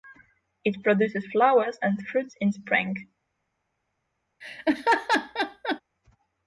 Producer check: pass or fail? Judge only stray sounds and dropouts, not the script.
fail